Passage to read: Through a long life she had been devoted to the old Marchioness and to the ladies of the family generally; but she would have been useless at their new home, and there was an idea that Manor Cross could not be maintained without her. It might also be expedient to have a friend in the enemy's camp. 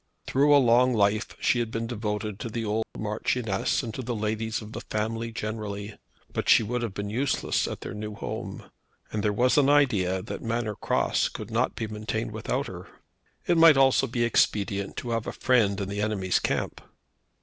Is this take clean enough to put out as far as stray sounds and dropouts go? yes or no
no